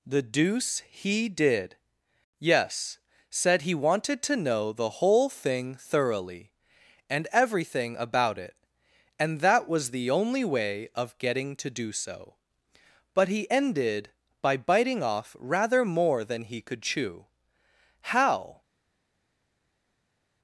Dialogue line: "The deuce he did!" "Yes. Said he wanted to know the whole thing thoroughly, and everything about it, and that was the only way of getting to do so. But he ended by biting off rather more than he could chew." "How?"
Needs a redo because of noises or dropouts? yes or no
no